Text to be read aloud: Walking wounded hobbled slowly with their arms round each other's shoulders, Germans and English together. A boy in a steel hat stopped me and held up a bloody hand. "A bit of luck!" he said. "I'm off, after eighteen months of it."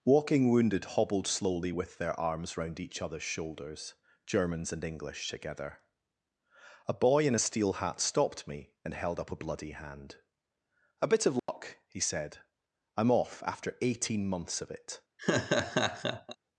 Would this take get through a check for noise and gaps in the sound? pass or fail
fail